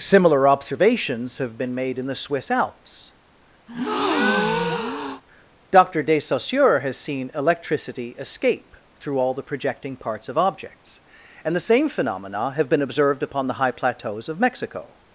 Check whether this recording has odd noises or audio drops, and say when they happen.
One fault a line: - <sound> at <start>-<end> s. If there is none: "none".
- breath at 3.7-5.2 s